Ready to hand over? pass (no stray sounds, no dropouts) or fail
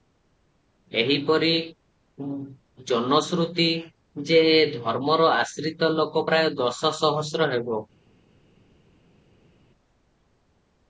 pass